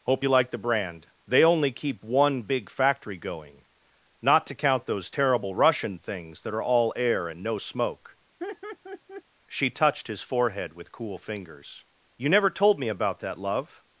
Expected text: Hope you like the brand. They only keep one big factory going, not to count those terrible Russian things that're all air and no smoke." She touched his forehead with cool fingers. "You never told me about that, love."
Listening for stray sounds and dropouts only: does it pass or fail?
fail